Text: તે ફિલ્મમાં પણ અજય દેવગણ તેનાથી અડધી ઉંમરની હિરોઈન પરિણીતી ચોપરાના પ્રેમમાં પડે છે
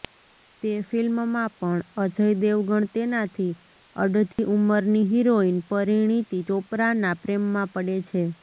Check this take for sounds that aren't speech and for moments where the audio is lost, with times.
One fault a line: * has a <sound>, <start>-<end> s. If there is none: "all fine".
* has a dropout, 4.3-4.4 s